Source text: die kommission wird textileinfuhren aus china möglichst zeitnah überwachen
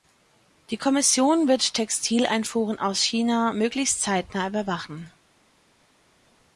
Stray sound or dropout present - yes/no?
no